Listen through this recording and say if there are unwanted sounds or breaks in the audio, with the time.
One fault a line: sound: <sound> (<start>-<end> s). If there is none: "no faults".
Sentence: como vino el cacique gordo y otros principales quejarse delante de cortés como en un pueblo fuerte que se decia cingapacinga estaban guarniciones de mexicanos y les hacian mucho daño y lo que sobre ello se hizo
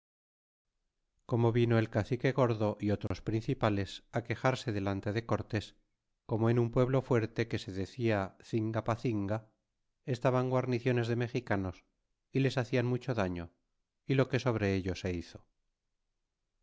sound: dropout (3.1-3.1 s)